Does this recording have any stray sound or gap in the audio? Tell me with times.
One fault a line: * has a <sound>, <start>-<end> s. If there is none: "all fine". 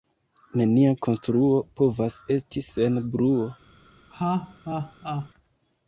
* has a laugh, 4.1-5.3 s